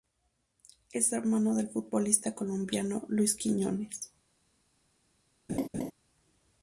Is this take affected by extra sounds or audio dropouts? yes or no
yes